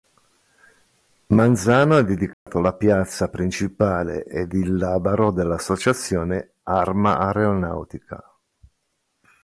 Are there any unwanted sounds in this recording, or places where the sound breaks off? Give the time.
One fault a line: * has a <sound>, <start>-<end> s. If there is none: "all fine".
* has a dropout, 2.3-2.5 s